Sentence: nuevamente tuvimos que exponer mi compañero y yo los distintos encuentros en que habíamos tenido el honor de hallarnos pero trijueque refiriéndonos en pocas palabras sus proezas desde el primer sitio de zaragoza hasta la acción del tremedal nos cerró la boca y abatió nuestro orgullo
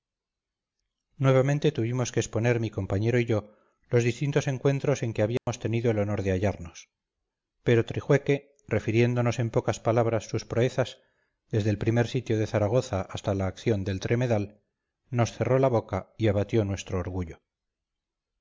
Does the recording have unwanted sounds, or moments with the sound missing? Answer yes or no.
yes